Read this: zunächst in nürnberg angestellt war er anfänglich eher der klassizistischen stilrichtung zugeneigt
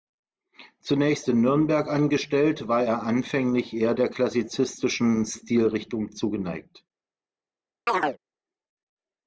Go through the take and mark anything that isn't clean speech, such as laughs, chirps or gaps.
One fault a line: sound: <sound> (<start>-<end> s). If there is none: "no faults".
sound: chirp (7.9-8.2 s)